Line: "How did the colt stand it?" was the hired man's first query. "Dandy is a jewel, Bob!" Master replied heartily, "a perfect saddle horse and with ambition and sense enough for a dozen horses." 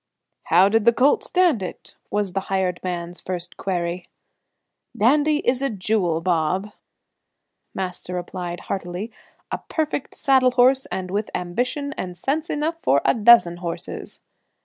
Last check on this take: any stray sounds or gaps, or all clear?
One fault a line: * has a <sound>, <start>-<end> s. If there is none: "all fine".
all fine